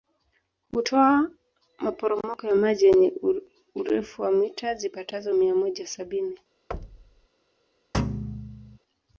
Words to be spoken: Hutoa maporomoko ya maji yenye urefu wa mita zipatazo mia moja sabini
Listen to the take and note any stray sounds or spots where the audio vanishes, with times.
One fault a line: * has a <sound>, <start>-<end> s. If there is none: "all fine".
* has a thud, 6.7-7.3 s
* has a thud, 7.9-8.8 s